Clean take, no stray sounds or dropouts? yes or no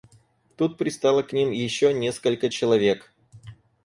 yes